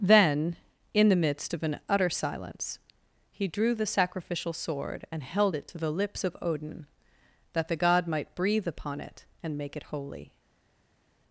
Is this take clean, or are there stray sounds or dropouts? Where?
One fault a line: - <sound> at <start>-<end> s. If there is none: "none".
none